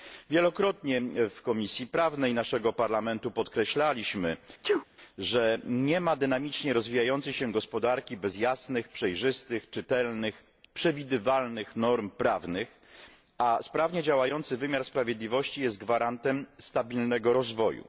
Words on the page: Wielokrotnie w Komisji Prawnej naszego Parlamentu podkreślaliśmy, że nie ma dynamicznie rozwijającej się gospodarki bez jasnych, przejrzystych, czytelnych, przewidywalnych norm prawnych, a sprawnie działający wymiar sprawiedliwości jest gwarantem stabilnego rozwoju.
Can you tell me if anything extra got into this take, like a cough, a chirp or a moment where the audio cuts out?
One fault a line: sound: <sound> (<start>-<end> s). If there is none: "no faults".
sound: sneeze (4.6-4.8 s)